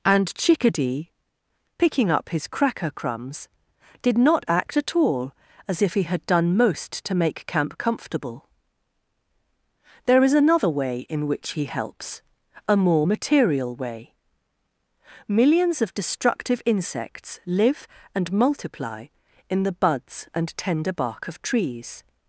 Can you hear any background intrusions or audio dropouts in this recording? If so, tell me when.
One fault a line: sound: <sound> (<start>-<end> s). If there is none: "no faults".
no faults